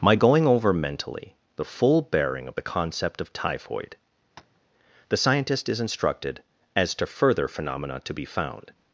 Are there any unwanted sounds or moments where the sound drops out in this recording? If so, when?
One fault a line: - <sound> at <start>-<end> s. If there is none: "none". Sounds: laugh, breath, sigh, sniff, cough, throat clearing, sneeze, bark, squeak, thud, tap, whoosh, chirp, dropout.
- tap at 4.4-4.6 s